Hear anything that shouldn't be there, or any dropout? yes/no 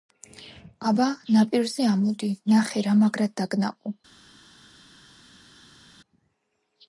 no